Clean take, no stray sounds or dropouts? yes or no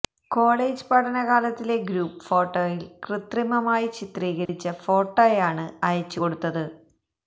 no